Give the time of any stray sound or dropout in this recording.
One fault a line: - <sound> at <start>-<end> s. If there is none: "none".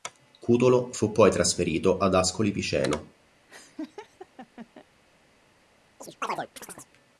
- laugh at 3.5-4.9 s
- chirp at 6.0-6.9 s